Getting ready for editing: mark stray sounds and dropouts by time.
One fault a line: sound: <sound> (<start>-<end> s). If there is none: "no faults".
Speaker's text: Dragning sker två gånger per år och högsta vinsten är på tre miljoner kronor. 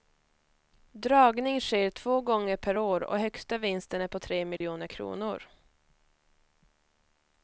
sound: dropout (4.6-4.6 s)